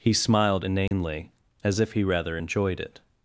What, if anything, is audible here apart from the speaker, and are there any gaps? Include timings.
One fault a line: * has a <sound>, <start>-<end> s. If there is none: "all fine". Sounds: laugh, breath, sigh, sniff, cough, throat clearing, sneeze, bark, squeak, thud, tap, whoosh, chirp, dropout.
* has a dropout, 0.9-0.9 s